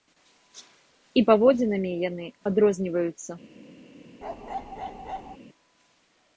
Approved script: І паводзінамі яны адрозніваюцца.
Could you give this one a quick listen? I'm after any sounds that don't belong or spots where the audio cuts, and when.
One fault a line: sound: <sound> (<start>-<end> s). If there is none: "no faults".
sound: bark (4.2-5.4 s)